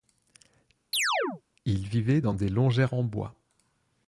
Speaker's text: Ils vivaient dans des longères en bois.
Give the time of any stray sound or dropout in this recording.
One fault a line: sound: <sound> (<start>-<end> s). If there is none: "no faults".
sound: chirp (0.9-1.4 s)